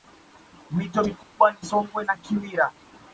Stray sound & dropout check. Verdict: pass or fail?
fail